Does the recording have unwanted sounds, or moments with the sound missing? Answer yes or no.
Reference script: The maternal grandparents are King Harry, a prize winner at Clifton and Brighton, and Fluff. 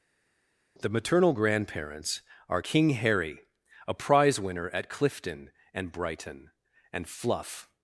no